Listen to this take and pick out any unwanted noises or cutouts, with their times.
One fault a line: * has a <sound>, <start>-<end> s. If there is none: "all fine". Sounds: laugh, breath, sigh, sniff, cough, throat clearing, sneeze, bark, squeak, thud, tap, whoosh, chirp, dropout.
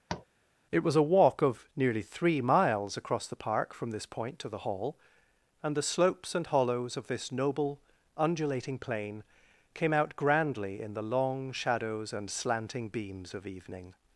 * has a tap, 0.1-0.3 s